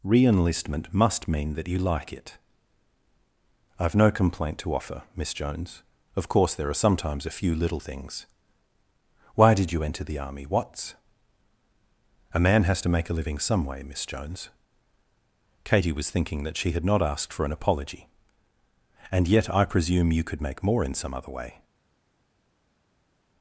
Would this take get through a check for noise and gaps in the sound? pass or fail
pass